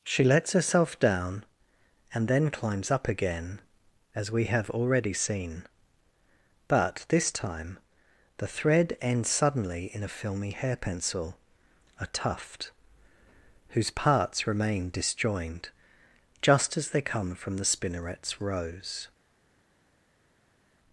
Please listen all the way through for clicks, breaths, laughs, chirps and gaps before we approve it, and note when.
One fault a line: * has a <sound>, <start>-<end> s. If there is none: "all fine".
all fine